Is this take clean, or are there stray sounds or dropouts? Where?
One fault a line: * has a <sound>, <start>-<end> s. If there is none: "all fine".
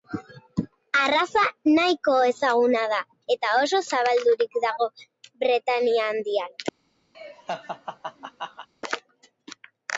* has a laugh, 7.1-8.7 s